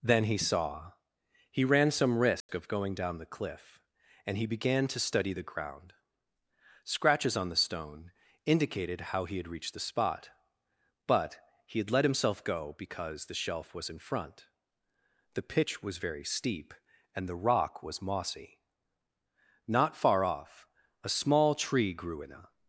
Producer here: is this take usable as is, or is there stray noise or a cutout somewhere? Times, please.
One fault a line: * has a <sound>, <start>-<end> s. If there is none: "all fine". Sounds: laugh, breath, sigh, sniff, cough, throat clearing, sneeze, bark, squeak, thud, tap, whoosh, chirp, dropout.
* has a dropout, 2.4-2.5 s